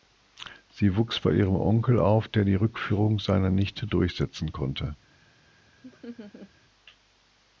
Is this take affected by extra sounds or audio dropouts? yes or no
yes